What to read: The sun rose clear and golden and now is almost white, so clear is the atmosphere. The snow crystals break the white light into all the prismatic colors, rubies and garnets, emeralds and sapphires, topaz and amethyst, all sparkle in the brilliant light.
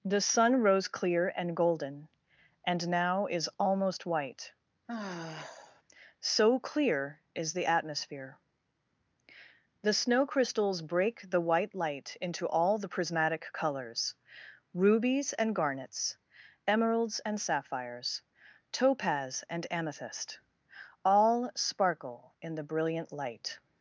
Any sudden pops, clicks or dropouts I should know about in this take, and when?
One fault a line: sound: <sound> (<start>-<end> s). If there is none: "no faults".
sound: sigh (4.9-5.8 s)